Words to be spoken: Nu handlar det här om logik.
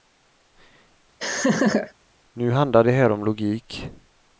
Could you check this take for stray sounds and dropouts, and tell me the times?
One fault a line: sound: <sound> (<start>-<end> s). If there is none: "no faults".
sound: laugh (1.2-1.9 s)